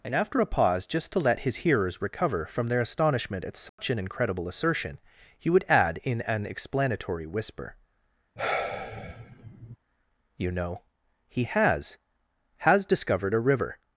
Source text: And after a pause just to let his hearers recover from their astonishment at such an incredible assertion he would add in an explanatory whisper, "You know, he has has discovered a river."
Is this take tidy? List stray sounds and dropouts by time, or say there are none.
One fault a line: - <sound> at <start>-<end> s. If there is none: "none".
- dropout at 3.7-3.8 s
- sigh at 8.4-9.8 s